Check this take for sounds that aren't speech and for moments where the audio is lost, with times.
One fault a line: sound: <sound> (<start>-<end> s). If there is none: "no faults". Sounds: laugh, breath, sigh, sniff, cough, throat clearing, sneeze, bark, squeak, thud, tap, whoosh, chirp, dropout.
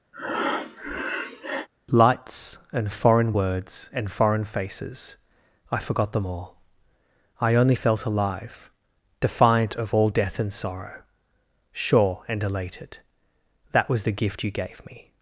sound: breath (0.1-1.7 s)